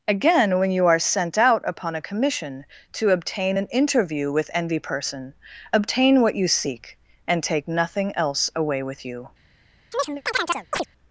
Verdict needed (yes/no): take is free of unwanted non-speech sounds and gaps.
no